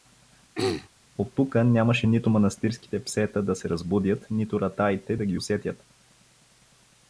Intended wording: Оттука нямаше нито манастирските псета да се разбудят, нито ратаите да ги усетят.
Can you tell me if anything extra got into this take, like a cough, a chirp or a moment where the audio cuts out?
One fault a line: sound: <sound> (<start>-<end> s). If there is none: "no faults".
sound: throat clearing (0.5-0.9 s)